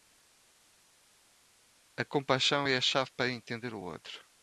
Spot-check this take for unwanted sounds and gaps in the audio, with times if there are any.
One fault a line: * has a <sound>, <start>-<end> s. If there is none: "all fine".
all fine